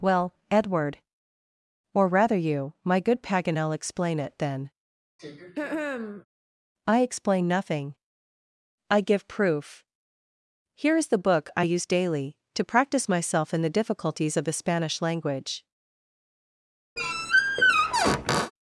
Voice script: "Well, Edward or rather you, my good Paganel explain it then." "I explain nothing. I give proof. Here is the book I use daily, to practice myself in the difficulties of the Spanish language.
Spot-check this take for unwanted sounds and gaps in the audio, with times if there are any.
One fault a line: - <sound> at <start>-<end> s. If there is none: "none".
- throat clearing at 5.2-6.3 s
- squeak at 17.0-18.5 s